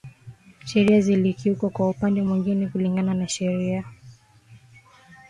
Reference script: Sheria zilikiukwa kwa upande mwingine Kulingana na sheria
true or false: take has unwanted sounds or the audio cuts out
false